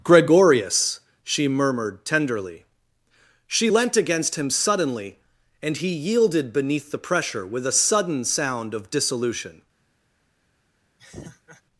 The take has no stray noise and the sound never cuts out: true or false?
false